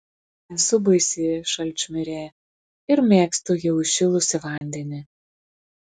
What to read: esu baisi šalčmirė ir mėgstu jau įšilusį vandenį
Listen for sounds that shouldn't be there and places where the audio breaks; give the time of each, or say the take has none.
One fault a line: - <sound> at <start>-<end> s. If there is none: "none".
- dropout at 4.6-4.6 s